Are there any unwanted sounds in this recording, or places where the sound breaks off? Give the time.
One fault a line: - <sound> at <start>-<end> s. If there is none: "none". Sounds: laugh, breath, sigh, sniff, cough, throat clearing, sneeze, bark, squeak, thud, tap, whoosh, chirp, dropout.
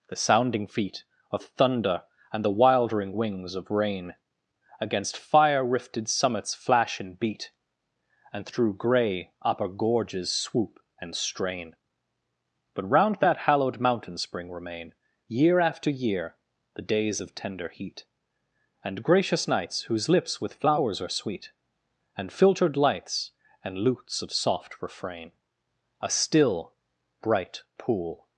none